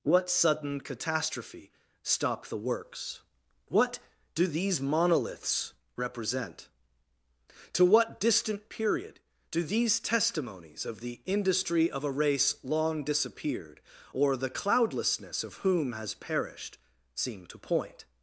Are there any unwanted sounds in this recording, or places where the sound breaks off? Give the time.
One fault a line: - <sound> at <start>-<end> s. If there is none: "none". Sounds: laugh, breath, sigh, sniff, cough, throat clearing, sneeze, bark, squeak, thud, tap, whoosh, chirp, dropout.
none